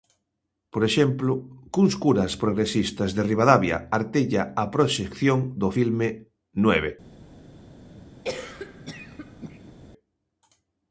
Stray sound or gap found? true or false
true